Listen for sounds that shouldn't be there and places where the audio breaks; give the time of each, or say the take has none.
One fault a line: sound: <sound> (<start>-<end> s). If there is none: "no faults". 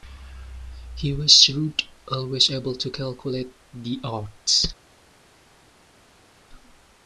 no faults